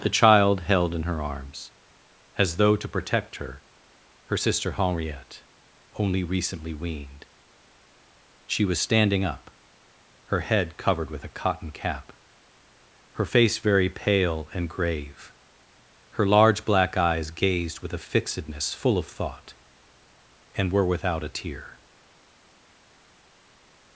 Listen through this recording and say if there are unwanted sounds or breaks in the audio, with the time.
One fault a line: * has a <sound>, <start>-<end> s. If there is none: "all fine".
all fine